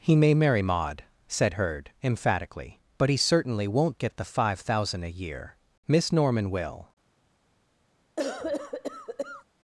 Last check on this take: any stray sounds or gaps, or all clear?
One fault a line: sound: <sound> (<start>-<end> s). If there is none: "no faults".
sound: cough (8.2-9.4 s)